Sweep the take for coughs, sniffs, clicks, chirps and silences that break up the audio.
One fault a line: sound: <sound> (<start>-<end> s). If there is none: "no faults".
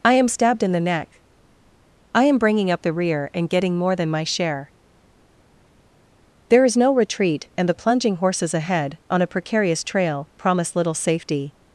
no faults